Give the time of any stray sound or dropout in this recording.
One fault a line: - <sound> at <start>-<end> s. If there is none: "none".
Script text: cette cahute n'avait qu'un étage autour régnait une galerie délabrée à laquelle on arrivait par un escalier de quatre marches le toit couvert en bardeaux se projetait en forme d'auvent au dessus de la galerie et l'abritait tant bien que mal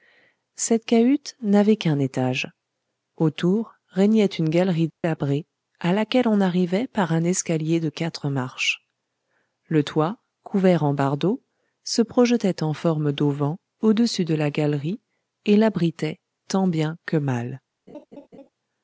- dropout at 4.9-5.0 s
- laugh at 17.9-18.5 s